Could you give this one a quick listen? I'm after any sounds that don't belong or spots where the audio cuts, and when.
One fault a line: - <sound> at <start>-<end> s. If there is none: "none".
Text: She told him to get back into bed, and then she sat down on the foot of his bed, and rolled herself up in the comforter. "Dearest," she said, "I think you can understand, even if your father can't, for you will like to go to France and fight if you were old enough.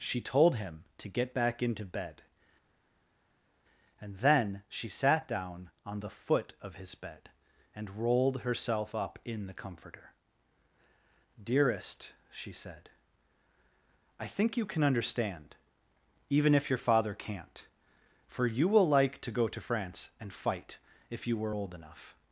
none